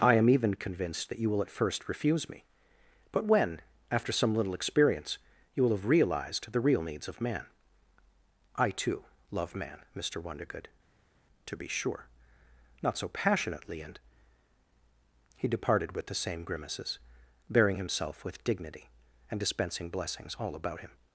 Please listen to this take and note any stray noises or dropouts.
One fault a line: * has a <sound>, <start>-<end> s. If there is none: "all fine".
all fine